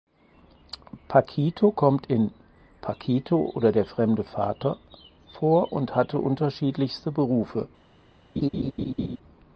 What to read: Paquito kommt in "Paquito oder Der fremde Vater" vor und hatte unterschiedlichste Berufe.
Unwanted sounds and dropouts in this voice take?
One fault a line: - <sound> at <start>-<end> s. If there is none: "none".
- laugh at 8.4-9.2 s